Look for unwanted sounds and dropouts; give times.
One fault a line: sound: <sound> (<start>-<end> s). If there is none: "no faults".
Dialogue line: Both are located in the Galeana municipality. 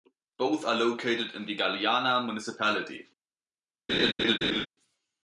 sound: laugh (3.9-4.7 s)